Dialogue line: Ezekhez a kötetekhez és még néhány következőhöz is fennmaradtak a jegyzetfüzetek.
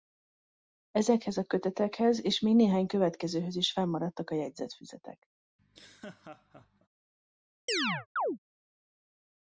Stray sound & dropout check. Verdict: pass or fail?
fail